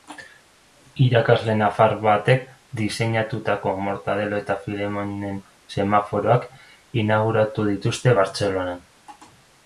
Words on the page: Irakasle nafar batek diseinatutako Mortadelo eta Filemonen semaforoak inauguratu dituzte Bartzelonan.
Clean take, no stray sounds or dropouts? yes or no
yes